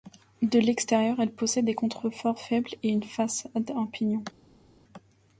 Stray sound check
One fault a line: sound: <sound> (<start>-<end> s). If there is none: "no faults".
no faults